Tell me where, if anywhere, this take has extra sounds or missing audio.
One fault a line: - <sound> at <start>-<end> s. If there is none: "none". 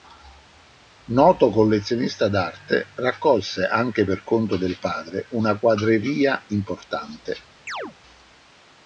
- chirp at 7.7-7.9 s